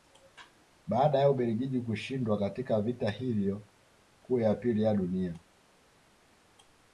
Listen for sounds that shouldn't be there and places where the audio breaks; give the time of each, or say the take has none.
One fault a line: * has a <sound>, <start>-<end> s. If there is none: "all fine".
all fine